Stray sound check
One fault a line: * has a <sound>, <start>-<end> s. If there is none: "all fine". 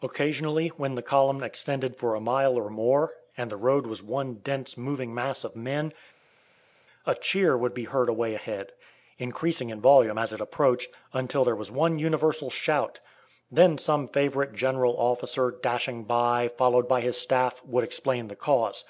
all fine